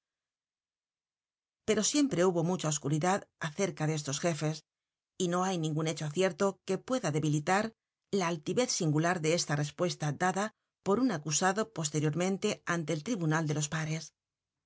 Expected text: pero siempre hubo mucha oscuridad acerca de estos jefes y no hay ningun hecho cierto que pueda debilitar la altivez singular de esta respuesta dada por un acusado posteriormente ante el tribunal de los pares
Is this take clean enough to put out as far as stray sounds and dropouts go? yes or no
yes